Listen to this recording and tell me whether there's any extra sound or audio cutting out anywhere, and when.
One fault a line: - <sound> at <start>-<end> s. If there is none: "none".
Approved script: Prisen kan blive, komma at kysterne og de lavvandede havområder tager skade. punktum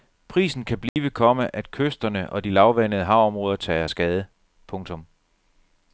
- dropout at 0.9-1.0 s